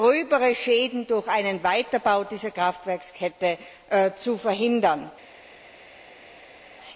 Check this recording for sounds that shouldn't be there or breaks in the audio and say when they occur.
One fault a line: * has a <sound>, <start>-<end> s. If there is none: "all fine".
all fine